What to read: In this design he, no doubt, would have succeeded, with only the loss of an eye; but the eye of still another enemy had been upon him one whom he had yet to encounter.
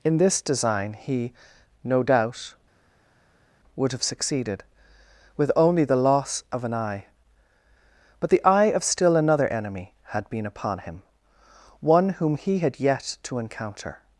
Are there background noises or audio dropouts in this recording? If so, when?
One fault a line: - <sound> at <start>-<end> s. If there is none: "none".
none